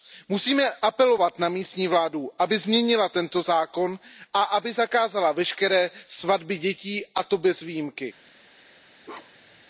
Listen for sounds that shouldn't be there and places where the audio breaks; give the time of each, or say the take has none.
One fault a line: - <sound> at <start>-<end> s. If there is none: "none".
- bark at 9.0-9.6 s